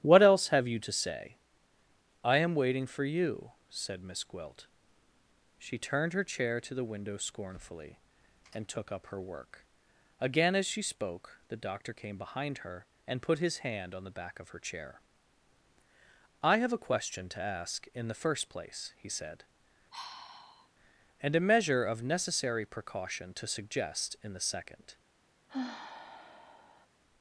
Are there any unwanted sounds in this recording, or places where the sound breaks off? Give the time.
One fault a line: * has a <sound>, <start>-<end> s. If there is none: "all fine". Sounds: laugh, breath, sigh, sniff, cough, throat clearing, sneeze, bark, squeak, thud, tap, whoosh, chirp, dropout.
* has a sigh, 19.9-20.7 s
* has a sigh, 25.5-26.9 s